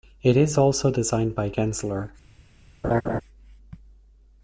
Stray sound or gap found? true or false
true